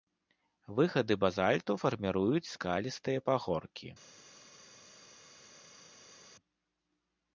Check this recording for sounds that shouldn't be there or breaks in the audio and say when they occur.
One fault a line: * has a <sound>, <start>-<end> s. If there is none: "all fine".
all fine